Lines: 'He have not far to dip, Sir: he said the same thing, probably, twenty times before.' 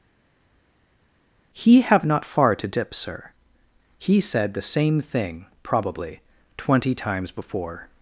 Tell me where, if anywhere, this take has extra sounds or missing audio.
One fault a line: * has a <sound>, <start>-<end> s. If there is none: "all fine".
all fine